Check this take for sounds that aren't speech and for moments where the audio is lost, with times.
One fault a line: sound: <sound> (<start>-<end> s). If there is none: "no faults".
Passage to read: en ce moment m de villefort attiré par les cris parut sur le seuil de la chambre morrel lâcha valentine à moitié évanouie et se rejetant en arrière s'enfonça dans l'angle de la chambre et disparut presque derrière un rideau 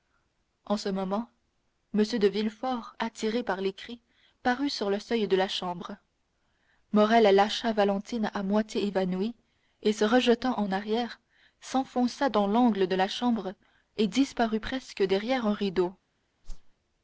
sound: whoosh (16.4-16.7 s)